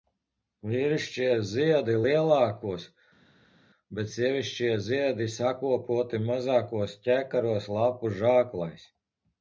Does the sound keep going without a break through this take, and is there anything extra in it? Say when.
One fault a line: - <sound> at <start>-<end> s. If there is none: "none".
none